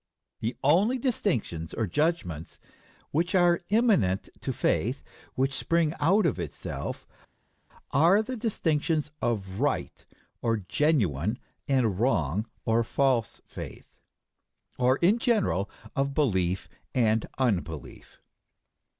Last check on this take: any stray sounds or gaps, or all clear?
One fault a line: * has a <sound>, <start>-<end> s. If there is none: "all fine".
all fine